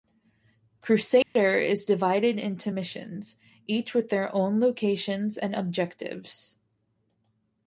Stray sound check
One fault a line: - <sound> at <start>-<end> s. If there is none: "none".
- dropout at 1.2-1.4 s